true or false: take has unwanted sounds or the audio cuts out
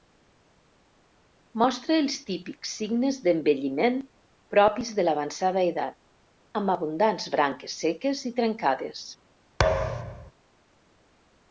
true